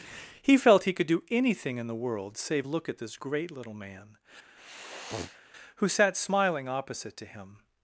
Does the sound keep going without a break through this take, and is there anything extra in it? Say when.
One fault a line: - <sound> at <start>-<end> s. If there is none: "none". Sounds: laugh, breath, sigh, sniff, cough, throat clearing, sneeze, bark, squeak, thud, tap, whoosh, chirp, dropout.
- sniff at 4.6-5.4 s